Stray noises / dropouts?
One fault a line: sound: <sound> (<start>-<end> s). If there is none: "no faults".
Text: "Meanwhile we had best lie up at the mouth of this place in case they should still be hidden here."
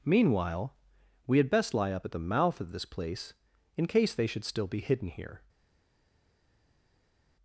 no faults